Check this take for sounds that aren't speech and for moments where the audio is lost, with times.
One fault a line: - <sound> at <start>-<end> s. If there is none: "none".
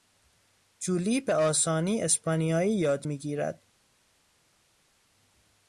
none